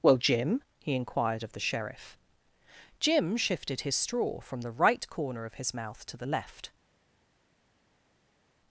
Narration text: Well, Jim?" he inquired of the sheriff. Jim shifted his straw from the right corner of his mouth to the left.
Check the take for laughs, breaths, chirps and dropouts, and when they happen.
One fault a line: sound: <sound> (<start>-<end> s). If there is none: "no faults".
no faults